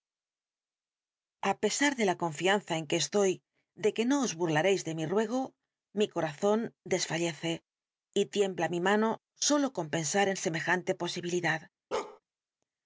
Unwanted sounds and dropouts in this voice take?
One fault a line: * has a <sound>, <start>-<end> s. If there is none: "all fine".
* has a bark, 11.9-12.2 s